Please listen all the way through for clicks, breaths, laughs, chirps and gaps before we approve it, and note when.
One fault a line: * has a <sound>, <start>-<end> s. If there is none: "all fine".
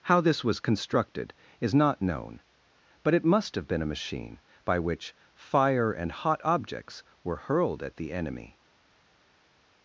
all fine